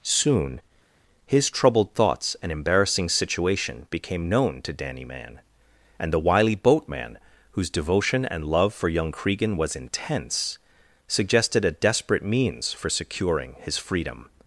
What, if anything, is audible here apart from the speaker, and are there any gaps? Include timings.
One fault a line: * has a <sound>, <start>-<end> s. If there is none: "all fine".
all fine